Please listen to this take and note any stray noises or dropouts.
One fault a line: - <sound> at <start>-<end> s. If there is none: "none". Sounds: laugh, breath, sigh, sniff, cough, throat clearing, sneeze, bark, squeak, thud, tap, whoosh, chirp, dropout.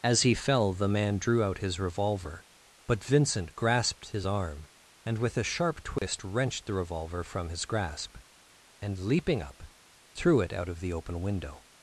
- dropout at 6.0-6.0 s